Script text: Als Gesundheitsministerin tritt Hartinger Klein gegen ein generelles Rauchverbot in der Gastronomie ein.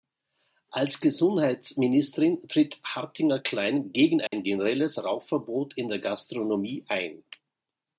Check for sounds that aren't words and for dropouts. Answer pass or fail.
fail